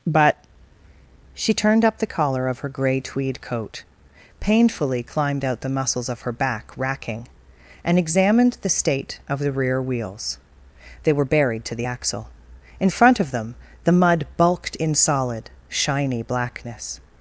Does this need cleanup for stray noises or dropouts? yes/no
no